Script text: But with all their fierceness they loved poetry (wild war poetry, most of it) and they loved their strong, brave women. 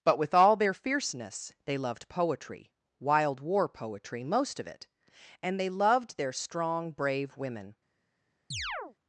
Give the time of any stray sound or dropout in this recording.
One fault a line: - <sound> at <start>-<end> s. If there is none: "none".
- chirp at 8.5-9.0 s